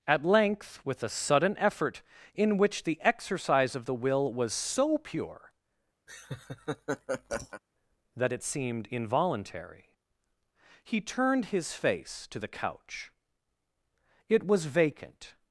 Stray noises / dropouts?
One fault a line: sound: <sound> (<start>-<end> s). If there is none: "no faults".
sound: laugh (6.1-7.6 s)